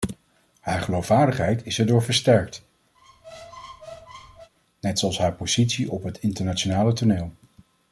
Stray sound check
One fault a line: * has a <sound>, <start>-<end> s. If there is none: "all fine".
* has a squeak, 2.9-4.5 s